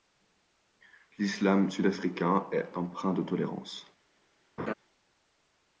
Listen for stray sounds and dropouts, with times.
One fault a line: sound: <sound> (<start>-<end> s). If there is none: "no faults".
sound: laugh (4.6-4.7 s)